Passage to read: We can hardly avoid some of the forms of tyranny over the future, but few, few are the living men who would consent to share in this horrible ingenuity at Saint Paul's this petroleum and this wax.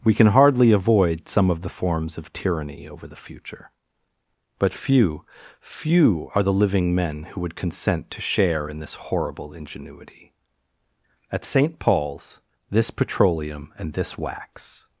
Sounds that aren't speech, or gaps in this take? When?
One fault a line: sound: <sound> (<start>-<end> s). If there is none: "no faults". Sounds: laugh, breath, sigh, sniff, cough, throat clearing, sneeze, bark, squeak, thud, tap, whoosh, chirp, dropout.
no faults